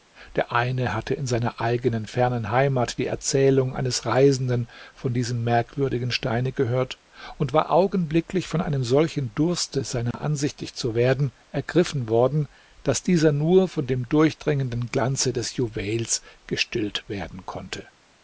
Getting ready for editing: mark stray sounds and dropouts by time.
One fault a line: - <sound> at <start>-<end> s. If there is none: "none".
- dropout at 10.1-10.1 s